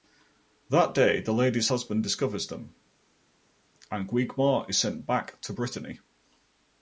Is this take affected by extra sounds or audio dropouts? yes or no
no